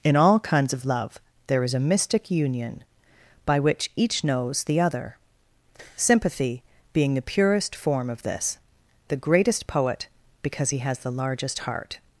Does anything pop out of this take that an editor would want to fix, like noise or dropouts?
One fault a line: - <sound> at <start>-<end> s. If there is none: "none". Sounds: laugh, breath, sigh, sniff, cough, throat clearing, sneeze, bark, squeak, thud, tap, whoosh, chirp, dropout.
none